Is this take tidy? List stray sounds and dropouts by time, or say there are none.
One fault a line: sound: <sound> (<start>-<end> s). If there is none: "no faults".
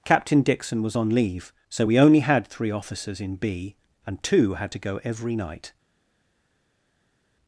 no faults